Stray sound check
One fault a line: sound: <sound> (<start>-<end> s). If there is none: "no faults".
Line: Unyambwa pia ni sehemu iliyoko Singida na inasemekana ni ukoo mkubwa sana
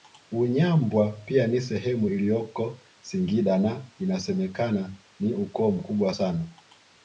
no faults